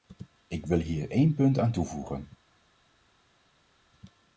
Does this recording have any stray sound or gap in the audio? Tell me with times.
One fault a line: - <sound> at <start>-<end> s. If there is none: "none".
none